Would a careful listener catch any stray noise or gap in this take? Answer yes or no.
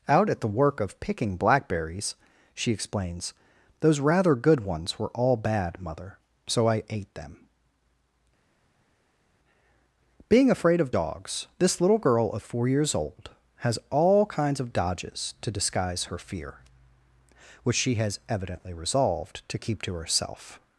no